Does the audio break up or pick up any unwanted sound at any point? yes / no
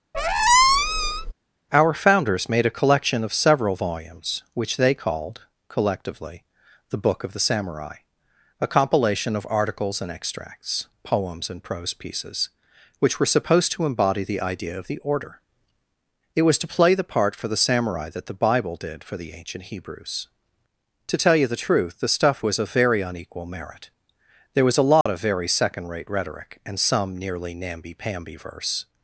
yes